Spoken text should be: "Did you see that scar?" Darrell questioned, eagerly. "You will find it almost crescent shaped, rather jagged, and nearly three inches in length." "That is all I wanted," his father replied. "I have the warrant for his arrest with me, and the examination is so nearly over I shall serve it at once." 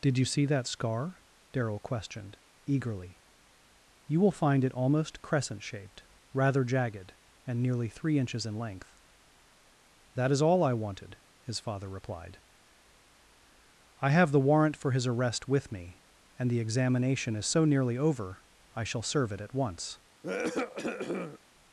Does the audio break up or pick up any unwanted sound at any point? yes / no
yes